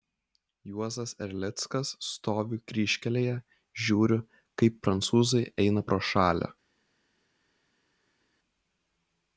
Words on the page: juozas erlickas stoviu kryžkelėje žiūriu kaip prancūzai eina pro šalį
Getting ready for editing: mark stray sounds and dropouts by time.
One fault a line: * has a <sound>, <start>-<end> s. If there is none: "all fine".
all fine